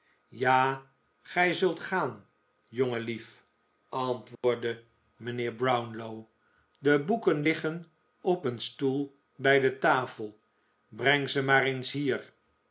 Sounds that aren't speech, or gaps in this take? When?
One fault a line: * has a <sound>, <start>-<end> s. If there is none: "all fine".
* has a dropout, 4.4-4.4 s